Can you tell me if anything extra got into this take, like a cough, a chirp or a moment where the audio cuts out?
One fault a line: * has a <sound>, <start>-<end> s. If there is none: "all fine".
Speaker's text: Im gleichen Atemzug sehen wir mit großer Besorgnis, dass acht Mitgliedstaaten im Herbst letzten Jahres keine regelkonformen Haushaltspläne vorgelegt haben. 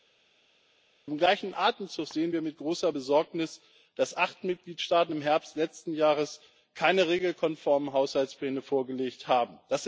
all fine